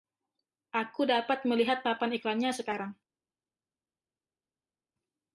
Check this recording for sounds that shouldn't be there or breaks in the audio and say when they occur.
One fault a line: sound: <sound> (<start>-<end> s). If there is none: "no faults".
no faults